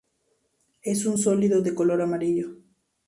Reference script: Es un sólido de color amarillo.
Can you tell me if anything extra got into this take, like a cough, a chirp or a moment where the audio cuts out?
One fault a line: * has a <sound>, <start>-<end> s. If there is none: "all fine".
all fine